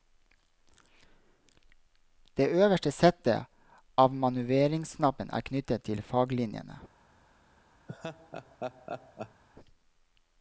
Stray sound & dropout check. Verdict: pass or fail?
fail